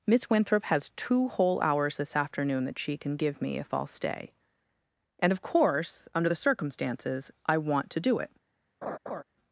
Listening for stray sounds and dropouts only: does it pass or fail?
fail